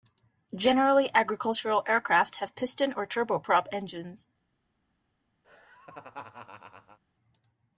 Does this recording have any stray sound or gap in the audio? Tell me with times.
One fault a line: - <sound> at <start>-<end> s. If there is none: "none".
- laugh at 5.4-7.0 s